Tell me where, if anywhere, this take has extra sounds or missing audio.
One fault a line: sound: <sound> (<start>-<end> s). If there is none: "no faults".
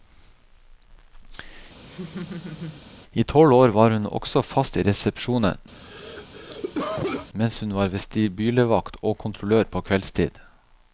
sound: laugh (1.9-2.8 s)
sound: cough (5.7-7.3 s)